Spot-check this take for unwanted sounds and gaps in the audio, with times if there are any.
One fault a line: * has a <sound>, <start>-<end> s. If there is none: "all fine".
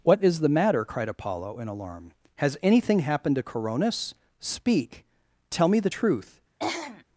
* has a throat clearing, 6.6-7.0 s